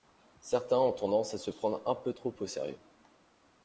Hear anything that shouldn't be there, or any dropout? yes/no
no